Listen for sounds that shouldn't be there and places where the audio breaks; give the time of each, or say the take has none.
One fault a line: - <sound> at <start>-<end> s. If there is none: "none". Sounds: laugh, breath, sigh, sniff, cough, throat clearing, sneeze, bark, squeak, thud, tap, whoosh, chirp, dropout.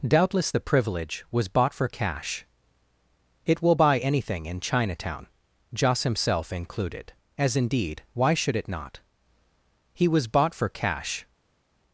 none